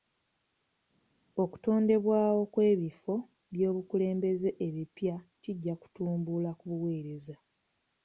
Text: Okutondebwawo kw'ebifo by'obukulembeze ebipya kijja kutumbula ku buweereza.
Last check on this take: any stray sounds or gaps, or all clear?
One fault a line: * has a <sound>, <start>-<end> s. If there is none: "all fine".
all fine